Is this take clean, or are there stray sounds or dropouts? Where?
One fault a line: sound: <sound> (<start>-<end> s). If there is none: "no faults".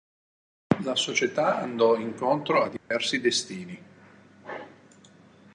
sound: dropout (2.8-2.9 s)